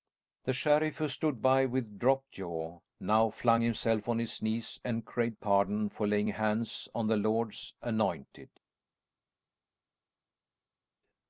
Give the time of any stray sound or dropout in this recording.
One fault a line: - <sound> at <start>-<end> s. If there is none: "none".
none